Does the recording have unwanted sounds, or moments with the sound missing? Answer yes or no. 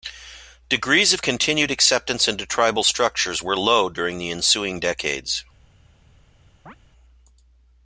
yes